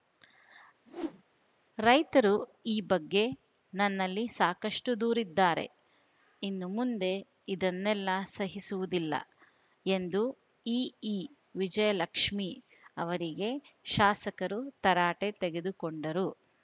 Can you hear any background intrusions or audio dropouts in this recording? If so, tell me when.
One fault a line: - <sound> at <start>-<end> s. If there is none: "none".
- whoosh at 0.9-1.2 s